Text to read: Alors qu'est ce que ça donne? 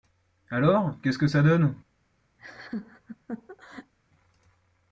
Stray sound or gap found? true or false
true